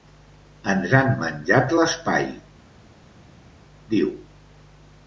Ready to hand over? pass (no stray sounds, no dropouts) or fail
pass